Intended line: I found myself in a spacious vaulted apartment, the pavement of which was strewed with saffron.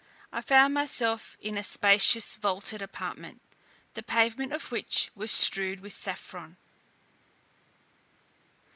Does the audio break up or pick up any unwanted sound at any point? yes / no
no